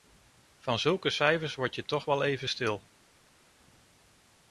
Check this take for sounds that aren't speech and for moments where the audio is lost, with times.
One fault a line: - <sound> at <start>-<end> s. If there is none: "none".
none